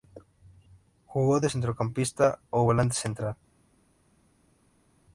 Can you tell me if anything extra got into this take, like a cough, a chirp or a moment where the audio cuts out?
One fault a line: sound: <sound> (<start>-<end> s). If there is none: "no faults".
no faults